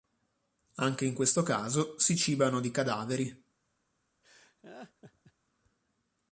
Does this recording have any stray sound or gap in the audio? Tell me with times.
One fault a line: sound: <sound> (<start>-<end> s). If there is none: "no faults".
sound: laugh (4.2-5.3 s)